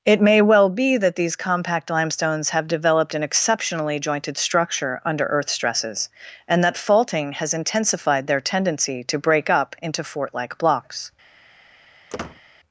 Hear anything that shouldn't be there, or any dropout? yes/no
yes